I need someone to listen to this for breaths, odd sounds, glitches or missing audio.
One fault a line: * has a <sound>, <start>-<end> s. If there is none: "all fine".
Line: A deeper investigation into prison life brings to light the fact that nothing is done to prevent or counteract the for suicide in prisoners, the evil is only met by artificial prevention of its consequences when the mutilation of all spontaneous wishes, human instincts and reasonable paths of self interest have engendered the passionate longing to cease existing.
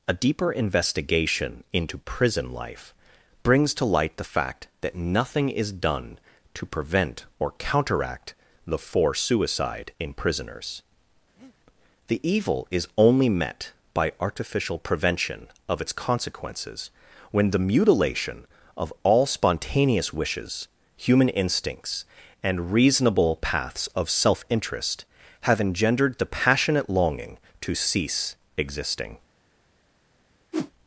* has a breath, 11.4-11.6 s
* has a whoosh, 30.5-30.7 s